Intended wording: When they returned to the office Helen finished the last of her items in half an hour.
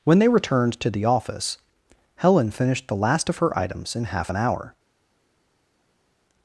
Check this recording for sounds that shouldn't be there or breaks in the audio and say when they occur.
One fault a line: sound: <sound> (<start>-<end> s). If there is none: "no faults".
no faults